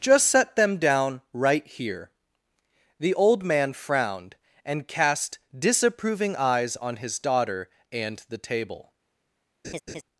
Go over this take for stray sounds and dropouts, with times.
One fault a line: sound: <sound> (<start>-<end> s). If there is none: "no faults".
sound: laugh (9.6-10.0 s)